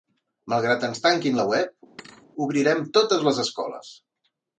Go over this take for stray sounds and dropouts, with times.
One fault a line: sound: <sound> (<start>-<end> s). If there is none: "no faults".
sound: thud (2.0-2.3 s)